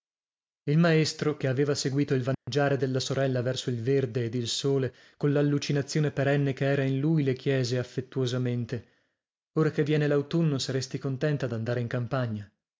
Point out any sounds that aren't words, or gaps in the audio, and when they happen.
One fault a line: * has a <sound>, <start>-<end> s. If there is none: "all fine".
* has a dropout, 2.3-2.5 s